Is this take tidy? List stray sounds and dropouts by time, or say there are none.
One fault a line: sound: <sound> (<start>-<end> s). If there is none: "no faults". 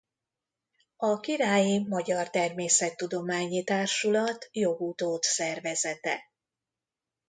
no faults